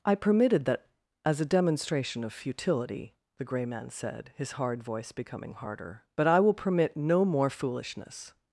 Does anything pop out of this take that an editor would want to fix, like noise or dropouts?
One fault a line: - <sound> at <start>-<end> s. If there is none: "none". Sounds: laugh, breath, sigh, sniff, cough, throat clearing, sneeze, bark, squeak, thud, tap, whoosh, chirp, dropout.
none